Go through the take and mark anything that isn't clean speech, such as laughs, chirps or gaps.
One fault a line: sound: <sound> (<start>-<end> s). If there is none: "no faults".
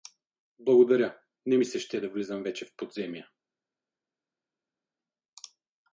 no faults